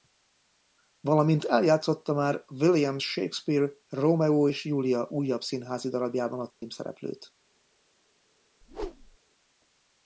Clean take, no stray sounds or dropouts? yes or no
no